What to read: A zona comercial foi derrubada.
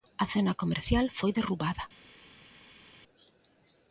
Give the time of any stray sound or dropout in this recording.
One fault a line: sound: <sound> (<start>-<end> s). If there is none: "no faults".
no faults